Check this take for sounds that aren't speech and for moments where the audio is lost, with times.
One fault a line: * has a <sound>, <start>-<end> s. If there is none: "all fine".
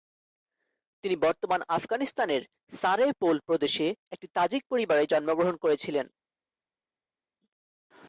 all fine